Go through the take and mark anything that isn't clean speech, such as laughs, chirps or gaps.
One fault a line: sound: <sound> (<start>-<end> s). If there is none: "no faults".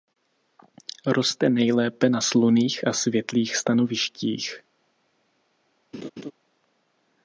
sound: laugh (5.9-6.3 s)